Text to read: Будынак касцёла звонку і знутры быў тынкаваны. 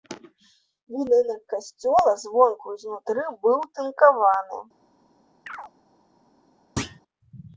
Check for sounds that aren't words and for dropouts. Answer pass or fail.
fail